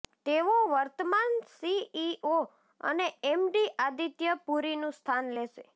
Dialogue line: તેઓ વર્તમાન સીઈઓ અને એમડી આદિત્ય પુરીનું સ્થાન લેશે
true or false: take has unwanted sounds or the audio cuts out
false